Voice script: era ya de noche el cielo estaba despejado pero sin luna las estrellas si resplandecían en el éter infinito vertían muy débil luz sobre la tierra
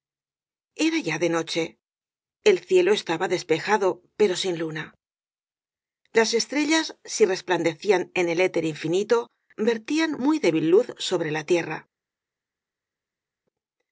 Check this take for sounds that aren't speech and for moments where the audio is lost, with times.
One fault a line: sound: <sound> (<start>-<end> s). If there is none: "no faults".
no faults